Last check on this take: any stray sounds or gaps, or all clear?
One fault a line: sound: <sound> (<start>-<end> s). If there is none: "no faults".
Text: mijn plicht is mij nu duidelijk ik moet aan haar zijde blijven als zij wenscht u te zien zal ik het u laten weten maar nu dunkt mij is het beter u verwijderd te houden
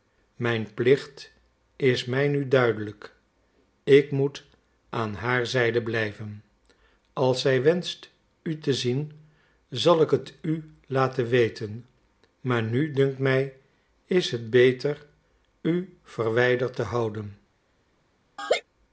sound: laugh (18.4-18.6 s)